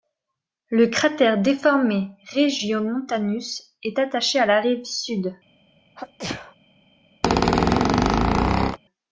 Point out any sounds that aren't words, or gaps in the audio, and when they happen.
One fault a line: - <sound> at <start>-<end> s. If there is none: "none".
- sneeze at 6.0-6.6 s
- squeak at 7.2-8.8 s